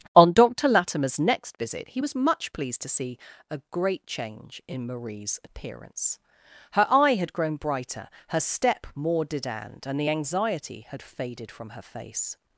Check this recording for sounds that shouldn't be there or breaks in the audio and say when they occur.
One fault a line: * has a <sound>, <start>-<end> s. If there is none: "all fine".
all fine